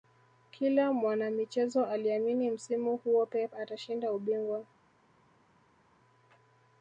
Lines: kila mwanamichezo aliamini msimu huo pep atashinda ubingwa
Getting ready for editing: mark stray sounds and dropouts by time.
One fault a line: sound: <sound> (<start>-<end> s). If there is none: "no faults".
no faults